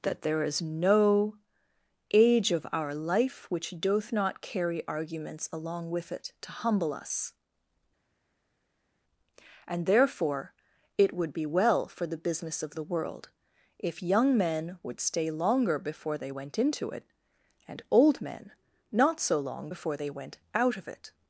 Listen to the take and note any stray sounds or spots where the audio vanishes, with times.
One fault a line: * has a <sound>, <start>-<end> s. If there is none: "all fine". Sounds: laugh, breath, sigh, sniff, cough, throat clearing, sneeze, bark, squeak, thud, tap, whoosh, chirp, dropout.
all fine